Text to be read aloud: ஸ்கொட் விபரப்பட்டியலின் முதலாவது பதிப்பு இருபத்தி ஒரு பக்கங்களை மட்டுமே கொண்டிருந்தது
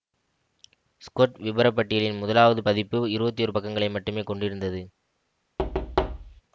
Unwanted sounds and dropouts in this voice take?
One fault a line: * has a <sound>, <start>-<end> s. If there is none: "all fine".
* has a thud, 5.6-6.4 s